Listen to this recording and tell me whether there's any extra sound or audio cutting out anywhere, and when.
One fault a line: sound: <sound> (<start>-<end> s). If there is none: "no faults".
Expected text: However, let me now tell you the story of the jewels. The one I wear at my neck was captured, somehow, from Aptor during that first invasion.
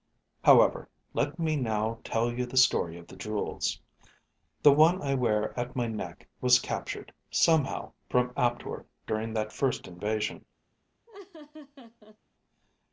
sound: laugh (11.1-12.2 s)